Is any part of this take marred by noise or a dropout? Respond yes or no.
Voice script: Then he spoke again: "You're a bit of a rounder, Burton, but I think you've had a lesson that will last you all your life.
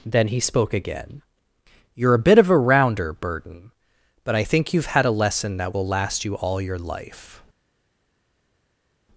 no